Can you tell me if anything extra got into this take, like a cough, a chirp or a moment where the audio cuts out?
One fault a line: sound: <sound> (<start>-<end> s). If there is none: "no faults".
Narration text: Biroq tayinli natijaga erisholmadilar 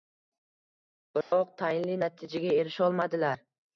sound: dropout (1.2-1.3 s)